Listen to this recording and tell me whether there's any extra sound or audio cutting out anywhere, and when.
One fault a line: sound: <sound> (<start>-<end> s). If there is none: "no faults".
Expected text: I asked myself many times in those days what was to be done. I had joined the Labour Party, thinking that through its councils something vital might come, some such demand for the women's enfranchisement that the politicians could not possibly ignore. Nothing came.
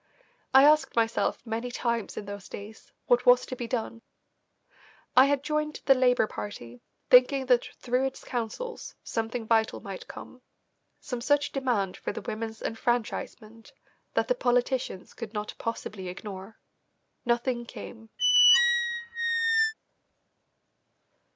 sound: squeak (18.2-19.7 s)